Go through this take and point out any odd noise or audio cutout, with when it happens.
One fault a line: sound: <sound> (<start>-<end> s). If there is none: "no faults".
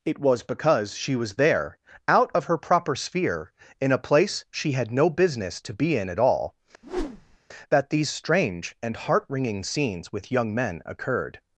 sound: whoosh (6.8-7.4 s)